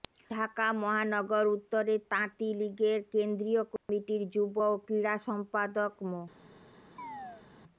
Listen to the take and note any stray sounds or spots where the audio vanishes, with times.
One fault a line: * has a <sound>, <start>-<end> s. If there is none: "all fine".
* has a dropout, 3.8-3.9 s
* has a chirp, 7.0-7.4 s